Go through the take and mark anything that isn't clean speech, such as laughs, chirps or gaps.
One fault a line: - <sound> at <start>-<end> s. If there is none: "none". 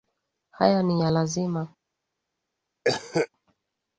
- cough at 2.8-3.3 s